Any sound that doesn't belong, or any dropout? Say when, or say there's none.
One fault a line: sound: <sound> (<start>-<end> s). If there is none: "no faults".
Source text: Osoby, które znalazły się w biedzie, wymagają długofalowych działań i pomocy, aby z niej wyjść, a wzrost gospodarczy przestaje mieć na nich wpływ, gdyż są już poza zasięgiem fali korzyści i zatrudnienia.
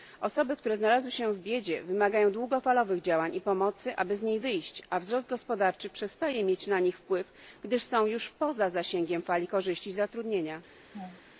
sound: laugh (10.9-11.2 s)